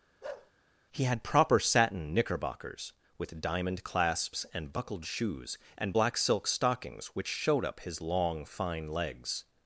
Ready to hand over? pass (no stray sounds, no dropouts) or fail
fail